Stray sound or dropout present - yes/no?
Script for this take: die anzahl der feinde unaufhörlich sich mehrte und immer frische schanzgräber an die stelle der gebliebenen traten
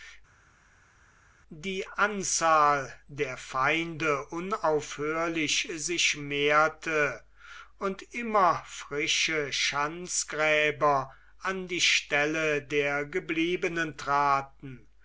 no